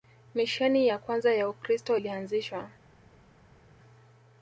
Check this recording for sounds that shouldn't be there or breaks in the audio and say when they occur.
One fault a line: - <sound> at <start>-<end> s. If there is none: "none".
none